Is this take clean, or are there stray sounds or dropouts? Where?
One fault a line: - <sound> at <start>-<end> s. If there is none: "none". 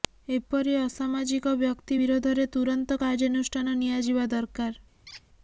- squeak at 5.1-5.2 s